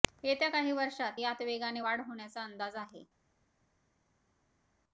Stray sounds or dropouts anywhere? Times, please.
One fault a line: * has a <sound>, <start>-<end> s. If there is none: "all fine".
all fine